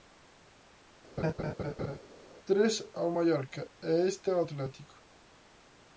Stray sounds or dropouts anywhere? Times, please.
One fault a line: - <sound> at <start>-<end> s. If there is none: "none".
- laugh at 1.2-2.0 s